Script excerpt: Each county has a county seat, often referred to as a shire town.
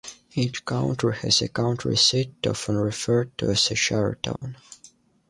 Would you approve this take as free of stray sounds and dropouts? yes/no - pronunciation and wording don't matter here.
no